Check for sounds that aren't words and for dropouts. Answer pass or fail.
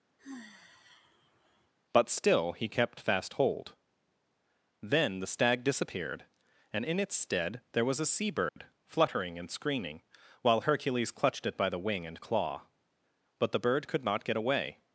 fail